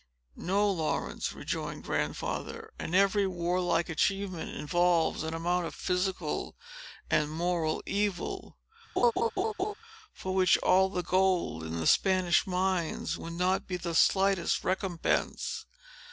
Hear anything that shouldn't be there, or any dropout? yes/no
yes